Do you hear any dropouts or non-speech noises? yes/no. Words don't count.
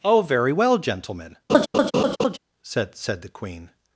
yes